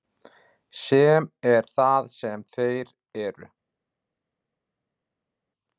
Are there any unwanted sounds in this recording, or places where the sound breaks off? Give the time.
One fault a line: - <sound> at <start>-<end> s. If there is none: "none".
none